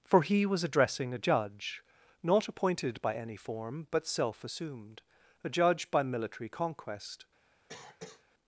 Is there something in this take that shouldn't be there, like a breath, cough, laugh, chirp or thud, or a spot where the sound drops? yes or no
yes